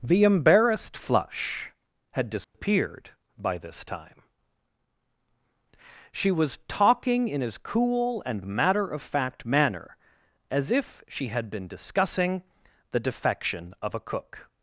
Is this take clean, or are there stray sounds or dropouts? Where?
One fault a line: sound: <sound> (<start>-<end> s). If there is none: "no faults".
sound: dropout (2.4-2.5 s)